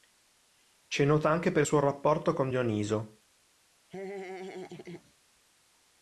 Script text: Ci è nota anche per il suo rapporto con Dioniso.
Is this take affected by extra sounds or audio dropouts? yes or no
yes